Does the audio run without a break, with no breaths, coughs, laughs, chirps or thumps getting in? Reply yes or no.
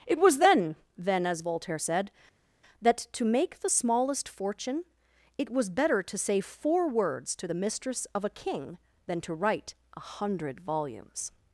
yes